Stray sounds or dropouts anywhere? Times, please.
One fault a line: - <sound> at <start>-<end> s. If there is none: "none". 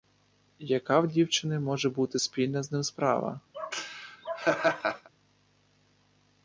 - laugh at 3.5-5.1 s